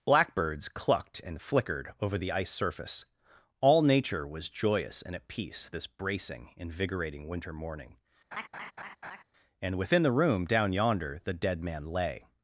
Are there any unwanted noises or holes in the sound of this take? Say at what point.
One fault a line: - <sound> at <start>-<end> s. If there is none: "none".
- laugh at 8.3-9.2 s